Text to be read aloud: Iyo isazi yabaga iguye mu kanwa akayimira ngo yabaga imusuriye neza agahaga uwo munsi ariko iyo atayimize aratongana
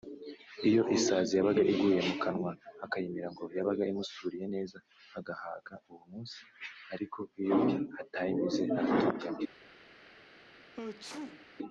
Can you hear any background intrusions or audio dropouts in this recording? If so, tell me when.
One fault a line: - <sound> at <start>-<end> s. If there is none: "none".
- sneeze at 10.7-11.5 s